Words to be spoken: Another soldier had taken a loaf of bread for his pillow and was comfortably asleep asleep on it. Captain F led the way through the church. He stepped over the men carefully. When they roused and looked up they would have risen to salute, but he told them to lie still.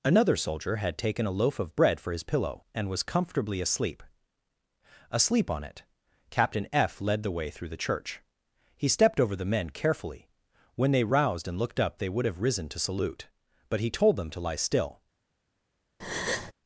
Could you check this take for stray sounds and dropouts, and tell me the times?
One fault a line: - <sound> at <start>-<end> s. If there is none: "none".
- breath at 16.0-16.5 s